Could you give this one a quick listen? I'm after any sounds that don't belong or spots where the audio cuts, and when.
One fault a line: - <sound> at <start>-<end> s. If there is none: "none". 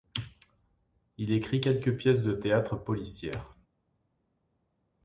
none